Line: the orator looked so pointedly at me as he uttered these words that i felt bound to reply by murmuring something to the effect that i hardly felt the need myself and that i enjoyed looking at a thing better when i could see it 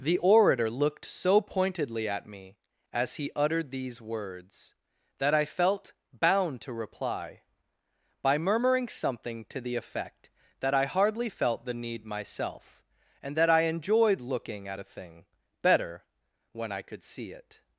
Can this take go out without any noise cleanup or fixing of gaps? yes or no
yes